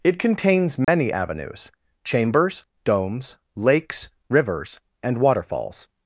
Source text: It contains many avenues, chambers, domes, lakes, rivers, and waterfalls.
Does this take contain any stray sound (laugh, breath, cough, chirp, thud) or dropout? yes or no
yes